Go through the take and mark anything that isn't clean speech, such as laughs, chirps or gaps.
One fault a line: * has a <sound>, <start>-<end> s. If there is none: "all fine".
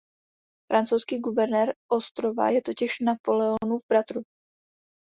all fine